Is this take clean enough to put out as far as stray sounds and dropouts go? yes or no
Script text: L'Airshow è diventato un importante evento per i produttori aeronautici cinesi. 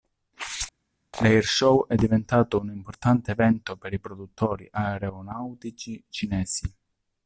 yes